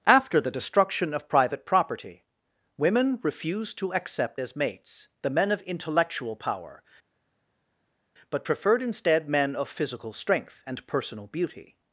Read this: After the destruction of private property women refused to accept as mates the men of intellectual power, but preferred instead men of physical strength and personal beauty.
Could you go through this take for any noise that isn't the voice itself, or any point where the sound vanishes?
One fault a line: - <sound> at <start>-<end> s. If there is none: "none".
none